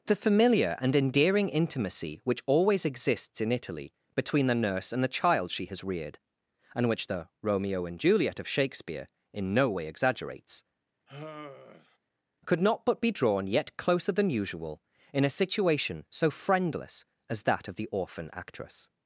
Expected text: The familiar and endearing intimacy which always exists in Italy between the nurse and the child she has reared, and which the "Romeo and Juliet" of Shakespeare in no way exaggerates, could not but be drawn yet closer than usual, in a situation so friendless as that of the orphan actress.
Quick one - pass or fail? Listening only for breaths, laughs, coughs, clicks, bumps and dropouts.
fail